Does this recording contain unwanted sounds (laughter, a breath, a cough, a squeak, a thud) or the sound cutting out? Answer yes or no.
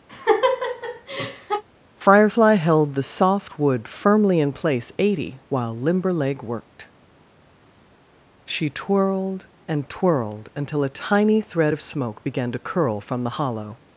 yes